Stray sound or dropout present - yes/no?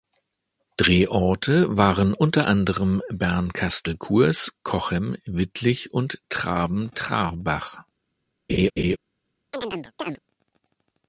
yes